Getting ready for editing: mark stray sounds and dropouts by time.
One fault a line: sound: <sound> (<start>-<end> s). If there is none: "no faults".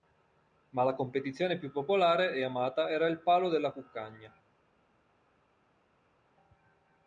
no faults